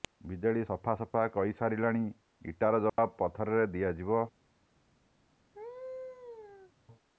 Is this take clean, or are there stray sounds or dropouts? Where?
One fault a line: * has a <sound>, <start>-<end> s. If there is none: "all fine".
* has a dropout, 2.9-3.0 s
* has a laugh, 5.5-6.7 s